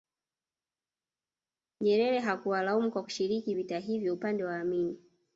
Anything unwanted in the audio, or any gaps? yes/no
no